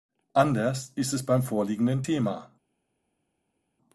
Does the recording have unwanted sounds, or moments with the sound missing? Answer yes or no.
no